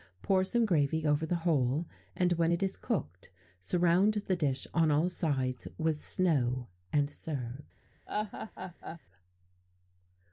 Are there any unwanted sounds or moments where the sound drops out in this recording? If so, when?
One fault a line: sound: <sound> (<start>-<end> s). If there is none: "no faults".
sound: laugh (8.1-9.0 s)